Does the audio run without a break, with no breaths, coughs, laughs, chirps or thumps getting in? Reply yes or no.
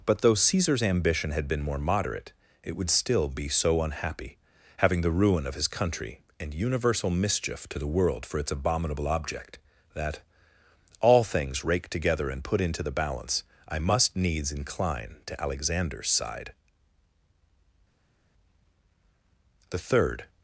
yes